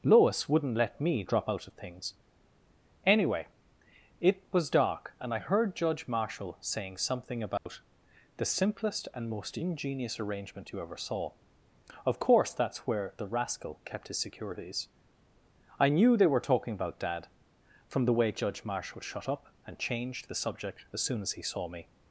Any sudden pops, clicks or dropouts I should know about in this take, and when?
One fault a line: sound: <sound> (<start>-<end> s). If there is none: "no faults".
sound: dropout (7.6-7.7 s)